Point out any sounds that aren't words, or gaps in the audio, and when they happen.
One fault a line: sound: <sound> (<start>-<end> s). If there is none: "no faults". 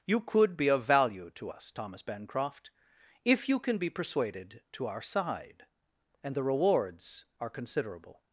no faults